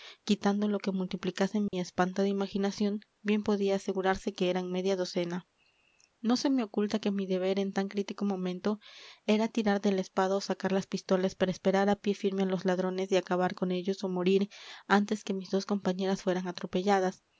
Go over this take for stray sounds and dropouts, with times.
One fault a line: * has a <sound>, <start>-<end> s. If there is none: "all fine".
* has a dropout, 1.7-1.7 s